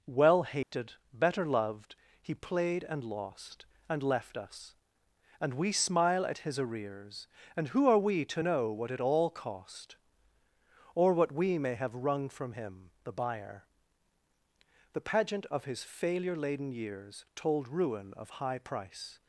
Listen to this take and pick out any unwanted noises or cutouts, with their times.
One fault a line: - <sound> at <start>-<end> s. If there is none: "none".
- dropout at 0.6-0.7 s